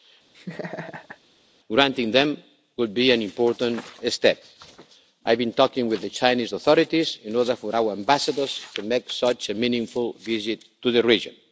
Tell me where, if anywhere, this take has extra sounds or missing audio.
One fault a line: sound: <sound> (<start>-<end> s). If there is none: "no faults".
sound: laugh (0.3-1.2 s)